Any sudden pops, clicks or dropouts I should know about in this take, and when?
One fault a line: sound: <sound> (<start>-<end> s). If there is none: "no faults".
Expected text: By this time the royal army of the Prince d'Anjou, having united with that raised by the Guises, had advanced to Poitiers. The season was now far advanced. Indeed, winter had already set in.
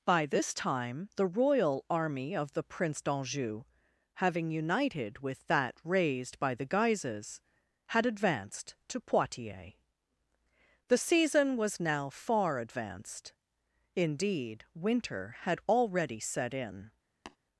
sound: tap (17.3-17.4 s)